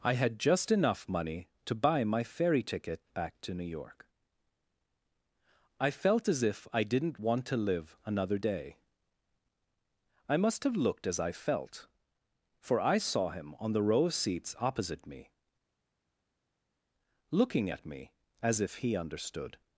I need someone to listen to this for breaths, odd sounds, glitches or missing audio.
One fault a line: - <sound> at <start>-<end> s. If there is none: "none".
none